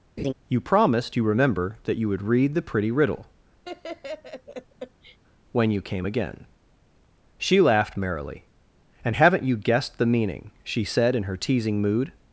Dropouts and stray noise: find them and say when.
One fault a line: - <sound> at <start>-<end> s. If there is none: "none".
- laugh at 0.2-0.3 s
- laugh at 3.6-5.2 s